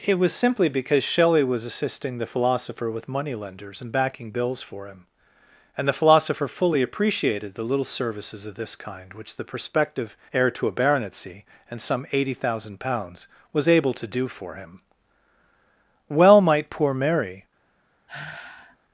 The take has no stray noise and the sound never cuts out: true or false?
false